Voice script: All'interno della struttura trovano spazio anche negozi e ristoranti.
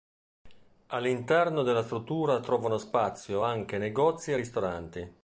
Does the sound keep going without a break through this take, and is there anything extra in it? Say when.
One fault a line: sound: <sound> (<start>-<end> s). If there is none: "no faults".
no faults